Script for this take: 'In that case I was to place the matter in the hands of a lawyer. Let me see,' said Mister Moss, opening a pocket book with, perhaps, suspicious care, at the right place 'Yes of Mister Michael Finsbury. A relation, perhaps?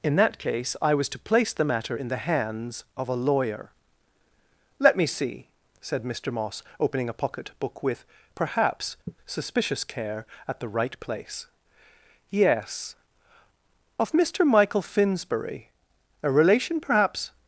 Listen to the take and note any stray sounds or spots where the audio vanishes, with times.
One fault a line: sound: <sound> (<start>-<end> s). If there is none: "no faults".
sound: sigh (9.1-9.2 s)